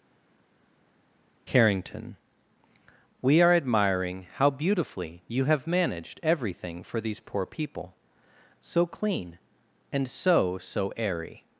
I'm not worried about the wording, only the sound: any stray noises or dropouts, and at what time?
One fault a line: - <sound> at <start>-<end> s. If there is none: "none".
none